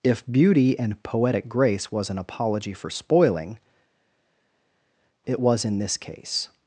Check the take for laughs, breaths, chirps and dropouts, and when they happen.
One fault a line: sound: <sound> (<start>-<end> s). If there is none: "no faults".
no faults